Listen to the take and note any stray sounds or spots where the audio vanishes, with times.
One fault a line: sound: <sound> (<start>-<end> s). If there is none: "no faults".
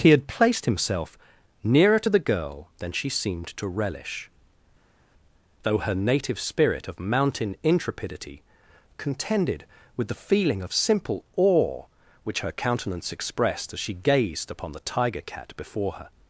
no faults